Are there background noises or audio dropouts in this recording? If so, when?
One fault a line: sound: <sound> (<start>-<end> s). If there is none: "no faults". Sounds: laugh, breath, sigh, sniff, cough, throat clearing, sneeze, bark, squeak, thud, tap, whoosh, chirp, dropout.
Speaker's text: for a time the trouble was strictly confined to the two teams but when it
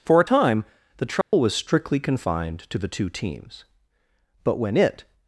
sound: dropout (1.2-1.3 s)